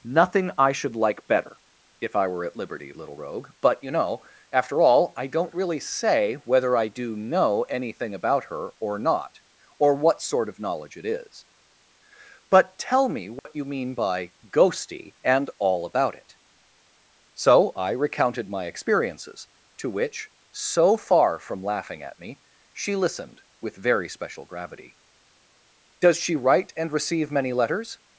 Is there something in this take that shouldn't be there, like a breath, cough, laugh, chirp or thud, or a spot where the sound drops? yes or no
yes